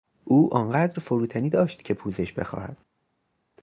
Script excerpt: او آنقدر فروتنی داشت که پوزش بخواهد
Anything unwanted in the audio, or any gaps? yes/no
no